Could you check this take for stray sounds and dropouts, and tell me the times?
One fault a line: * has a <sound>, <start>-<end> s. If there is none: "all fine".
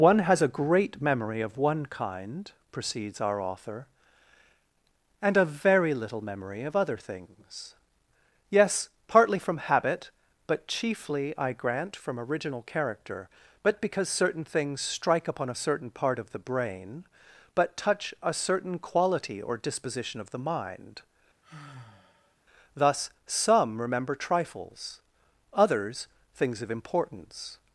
* has a sigh, 21.4-22.4 s